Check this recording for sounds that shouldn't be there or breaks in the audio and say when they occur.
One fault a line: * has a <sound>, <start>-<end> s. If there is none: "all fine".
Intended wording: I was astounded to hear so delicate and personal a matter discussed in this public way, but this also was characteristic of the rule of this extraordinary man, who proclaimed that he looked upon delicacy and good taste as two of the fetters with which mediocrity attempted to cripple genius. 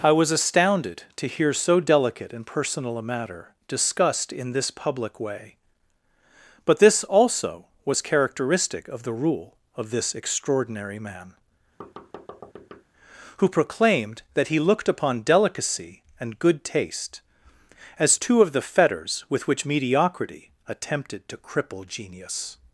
* has a thud, 11.8-12.8 s